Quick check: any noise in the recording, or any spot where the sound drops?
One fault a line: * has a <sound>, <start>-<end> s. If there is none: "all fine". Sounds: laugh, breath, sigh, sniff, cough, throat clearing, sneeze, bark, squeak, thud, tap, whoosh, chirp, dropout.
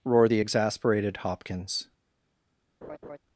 * has a laugh, 2.8-3.2 s